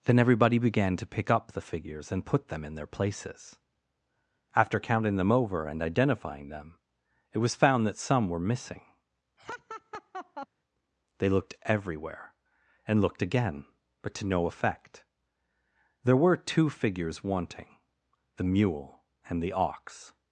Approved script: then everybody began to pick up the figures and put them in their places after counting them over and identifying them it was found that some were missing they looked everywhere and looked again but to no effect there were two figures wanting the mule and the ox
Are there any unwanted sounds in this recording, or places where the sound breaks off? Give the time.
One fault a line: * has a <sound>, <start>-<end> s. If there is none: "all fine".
* has a laugh, 9.4-10.5 s